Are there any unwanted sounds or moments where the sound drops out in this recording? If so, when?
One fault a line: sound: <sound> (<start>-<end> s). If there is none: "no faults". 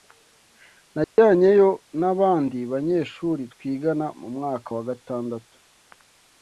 sound: dropout (1.0-1.2 s)